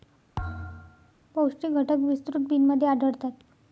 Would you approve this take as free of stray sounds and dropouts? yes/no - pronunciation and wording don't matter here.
no